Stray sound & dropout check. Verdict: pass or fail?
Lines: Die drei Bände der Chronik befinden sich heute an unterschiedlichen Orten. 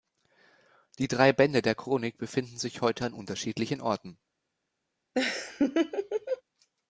fail